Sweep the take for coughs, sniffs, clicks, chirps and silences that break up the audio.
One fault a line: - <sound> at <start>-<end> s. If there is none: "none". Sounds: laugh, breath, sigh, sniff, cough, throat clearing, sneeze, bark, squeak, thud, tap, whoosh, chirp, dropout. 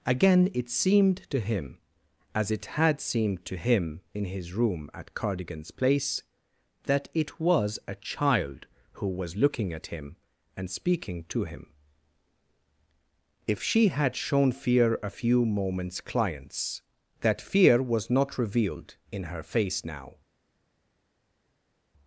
none